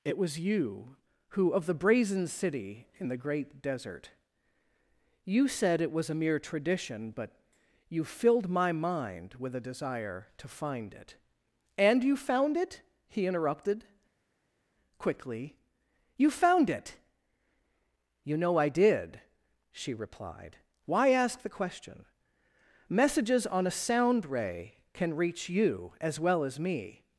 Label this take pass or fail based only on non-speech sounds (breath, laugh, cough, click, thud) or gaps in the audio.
pass